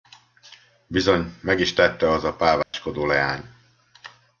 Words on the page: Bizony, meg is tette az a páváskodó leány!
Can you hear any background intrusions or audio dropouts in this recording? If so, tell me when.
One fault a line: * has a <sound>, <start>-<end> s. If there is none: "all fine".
* has a dropout, 2.6-2.7 s